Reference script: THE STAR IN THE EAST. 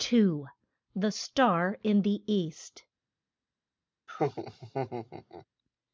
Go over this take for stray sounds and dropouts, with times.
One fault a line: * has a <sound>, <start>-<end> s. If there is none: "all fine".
* has a laugh, 4.1-5.5 s